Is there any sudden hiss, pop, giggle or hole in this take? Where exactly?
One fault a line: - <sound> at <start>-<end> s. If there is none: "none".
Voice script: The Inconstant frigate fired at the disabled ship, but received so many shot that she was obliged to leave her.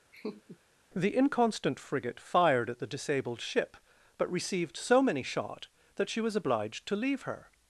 - laugh at 0.1-0.6 s